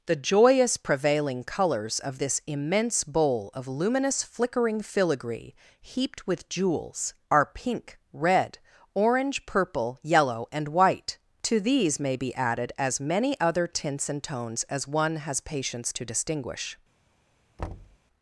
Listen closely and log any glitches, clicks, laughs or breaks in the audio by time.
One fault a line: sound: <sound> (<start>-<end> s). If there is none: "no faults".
sound: thud (17.6-18.0 s)